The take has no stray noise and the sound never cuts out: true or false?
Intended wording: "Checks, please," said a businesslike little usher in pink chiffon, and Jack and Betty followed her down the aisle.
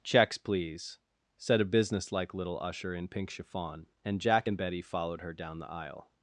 true